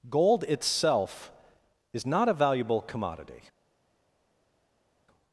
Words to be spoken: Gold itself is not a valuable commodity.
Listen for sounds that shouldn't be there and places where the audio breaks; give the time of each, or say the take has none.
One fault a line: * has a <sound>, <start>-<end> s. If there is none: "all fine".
all fine